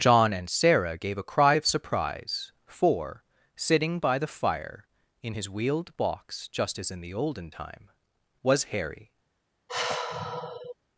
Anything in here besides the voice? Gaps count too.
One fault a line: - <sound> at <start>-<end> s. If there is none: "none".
- sigh at 9.7-10.8 s